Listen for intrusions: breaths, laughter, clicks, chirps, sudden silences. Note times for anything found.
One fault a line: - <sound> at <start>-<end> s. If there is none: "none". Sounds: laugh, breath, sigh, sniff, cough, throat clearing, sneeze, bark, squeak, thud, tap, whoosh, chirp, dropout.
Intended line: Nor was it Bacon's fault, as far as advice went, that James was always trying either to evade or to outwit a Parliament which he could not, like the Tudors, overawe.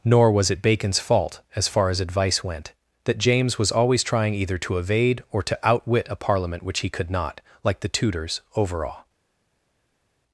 none